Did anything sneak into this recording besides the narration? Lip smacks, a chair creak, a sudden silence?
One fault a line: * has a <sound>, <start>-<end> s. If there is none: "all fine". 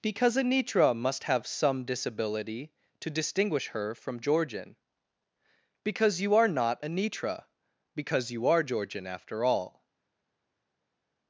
all fine